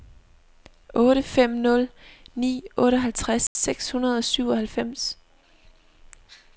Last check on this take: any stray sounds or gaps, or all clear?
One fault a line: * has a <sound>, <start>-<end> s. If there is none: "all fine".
* has a dropout, 3.5-3.6 s